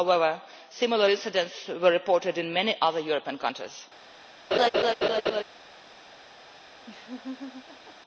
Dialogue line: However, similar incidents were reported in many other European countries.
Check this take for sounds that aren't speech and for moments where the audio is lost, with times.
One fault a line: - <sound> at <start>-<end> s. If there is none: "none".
- laugh at 4.5-5.4 s
- laugh at 6.9-8.0 s